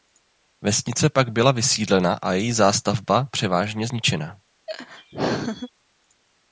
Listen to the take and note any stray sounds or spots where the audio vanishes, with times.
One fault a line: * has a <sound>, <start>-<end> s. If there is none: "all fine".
* has a laugh, 4.7-5.7 s